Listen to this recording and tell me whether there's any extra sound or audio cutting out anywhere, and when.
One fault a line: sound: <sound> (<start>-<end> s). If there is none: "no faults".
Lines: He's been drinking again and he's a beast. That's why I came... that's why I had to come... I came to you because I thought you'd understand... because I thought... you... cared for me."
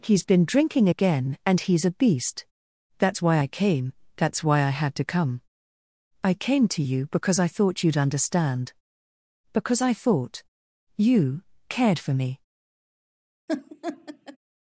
sound: laugh (13.5-14.4 s)